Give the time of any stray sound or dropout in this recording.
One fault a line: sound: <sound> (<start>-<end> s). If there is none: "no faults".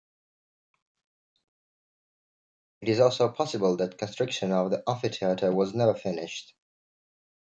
no faults